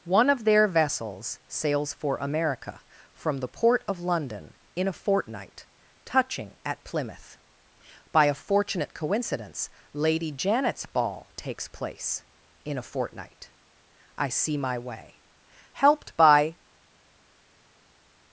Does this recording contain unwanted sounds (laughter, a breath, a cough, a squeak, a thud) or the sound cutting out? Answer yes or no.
no